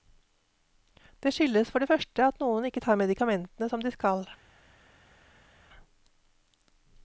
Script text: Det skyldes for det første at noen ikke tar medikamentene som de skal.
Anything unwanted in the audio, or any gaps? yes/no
no